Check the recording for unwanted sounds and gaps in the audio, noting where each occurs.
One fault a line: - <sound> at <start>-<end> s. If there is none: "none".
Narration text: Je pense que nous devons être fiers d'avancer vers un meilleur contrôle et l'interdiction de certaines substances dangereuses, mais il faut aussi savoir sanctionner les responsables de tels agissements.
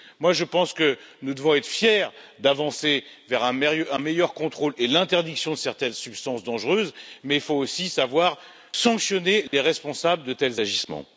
- dropout at 9.5-9.5 s